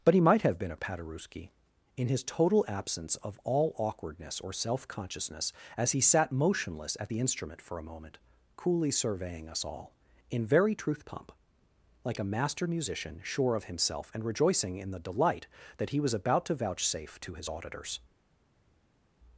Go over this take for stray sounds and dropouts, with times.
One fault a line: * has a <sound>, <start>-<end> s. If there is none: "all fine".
all fine